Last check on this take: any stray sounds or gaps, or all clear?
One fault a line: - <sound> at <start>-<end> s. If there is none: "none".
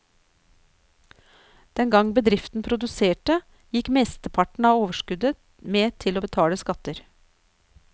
none